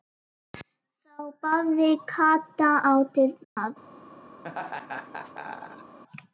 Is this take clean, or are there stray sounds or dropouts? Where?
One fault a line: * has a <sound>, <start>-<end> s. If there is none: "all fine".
* has a dropout, 3.4-3.6 s
* has a laugh, 4.4-6.0 s